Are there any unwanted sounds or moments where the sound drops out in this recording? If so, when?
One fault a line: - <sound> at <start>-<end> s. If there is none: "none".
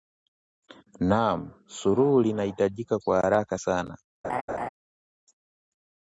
- laugh at 4.2-4.7 s